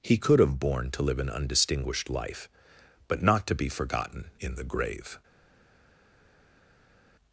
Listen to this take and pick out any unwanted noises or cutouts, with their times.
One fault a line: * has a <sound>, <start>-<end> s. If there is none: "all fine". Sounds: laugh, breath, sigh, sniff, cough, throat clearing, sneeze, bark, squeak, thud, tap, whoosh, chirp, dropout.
all fine